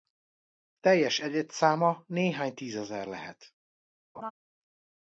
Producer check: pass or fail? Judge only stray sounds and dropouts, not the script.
fail